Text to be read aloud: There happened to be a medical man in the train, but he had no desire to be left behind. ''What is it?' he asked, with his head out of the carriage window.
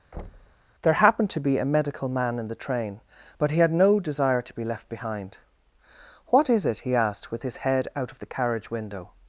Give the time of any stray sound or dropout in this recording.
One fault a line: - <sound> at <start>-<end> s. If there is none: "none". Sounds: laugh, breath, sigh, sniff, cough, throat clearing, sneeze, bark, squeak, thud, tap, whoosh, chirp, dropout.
- thud at 0.1-0.6 s